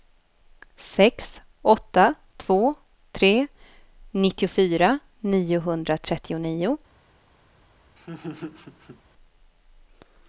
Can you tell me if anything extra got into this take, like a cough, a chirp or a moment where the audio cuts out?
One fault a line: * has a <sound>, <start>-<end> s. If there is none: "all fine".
* has a laugh, 8.0-9.0 s